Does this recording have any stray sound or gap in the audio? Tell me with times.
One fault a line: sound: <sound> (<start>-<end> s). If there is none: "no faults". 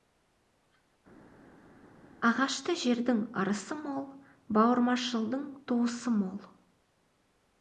no faults